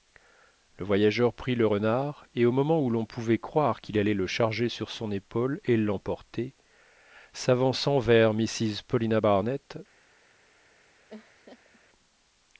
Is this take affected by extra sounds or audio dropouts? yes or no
yes